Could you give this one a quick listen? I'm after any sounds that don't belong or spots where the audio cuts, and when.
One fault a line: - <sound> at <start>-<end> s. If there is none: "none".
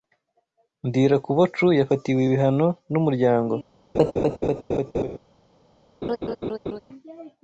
- laugh at 3.9-5.2 s
- laugh at 6.0-6.8 s